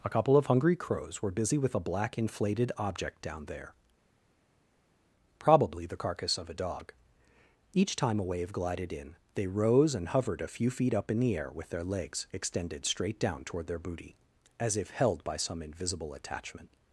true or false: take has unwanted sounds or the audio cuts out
false